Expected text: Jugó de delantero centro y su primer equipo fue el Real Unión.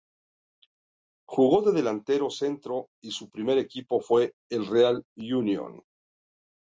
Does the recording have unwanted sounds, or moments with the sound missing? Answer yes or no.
no